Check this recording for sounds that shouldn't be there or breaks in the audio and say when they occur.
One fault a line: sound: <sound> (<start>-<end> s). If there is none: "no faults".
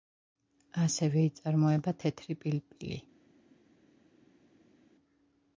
no faults